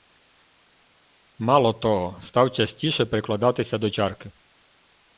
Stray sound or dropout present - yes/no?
no